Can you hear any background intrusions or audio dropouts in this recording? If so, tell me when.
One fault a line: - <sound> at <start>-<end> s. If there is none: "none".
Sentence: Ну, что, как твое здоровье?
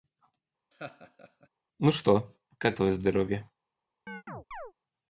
- laugh at 0.7-1.5 s
- chirp at 4.1-4.7 s